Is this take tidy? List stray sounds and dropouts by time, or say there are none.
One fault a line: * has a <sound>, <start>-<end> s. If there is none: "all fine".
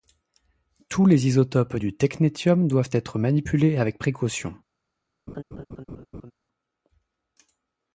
* has a laugh, 5.3-6.3 s